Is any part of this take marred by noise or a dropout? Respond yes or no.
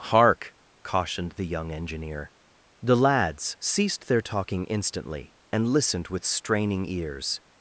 no